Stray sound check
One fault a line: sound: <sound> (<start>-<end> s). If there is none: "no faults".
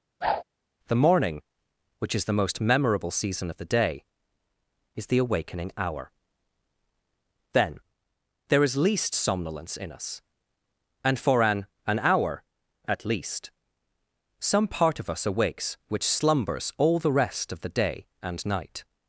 sound: whoosh (0.2-0.4 s)